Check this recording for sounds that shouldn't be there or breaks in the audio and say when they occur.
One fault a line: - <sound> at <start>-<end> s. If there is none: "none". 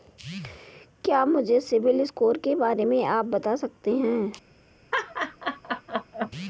- laugh at 4.9-6.3 s